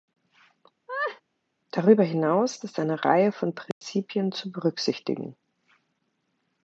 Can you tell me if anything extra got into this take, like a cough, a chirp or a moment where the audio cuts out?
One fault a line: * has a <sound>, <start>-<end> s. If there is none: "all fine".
* has a laugh, 0.9-1.2 s
* has a dropout, 3.7-3.8 s